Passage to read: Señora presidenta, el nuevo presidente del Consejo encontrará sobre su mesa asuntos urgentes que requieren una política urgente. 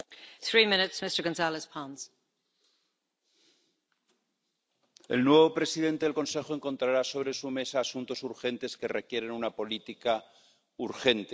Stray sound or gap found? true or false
false